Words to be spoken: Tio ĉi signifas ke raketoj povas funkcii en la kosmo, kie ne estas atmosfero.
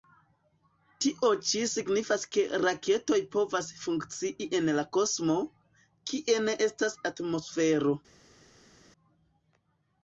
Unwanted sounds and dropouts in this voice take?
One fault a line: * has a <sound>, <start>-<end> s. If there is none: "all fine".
all fine